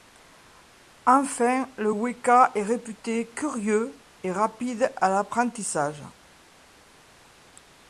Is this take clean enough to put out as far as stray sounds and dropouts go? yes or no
yes